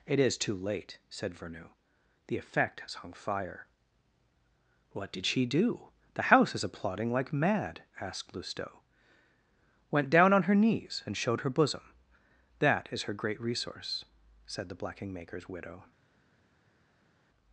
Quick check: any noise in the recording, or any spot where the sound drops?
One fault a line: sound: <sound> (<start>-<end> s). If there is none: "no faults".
no faults